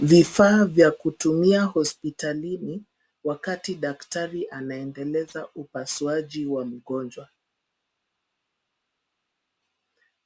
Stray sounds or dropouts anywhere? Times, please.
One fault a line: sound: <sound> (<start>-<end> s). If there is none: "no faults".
no faults